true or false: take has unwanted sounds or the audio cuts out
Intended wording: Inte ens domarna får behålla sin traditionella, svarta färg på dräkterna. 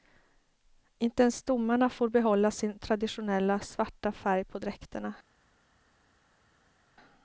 false